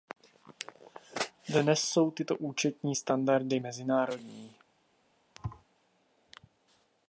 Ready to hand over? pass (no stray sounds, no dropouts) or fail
fail